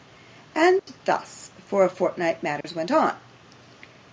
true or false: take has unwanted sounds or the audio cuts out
true